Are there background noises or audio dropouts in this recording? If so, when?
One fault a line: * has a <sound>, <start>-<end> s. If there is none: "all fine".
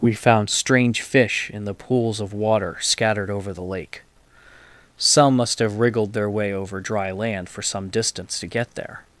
all fine